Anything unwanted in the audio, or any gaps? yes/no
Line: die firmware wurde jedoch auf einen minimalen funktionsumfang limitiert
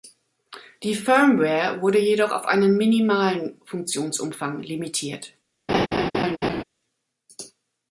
yes